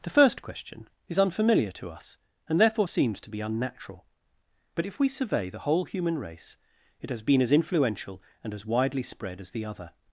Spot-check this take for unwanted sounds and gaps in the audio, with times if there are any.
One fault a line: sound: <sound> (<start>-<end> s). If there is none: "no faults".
no faults